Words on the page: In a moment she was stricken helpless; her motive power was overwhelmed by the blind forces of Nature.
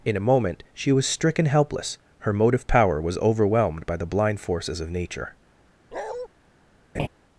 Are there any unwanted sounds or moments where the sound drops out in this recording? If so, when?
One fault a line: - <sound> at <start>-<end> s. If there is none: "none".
- bark at 5.9-6.3 s
- laugh at 6.9-7.1 s